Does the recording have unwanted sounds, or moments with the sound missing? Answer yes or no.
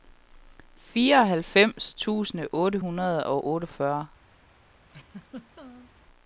yes